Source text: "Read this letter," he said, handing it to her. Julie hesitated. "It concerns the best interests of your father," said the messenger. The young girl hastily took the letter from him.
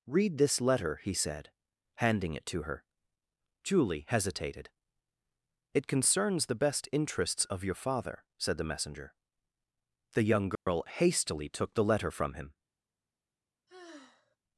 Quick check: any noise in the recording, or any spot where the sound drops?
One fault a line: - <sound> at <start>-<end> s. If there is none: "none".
- dropout at 10.5-10.7 s
- sigh at 13.7-14.4 s